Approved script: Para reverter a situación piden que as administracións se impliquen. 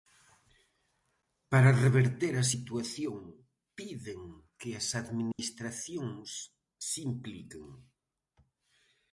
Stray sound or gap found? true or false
true